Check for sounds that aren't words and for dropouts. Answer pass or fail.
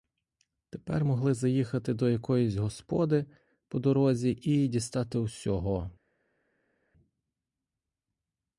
pass